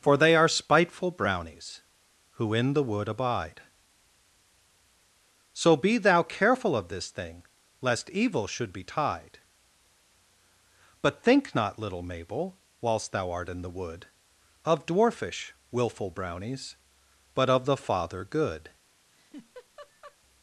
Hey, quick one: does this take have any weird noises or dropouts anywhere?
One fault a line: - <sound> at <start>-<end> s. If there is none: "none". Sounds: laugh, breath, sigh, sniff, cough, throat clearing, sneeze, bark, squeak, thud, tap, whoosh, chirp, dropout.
- laugh at 19.1-20.2 s